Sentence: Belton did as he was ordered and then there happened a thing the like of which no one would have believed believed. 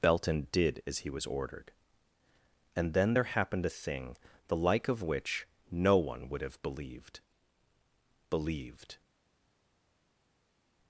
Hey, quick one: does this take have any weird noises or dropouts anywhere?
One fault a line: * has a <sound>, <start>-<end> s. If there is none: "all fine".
all fine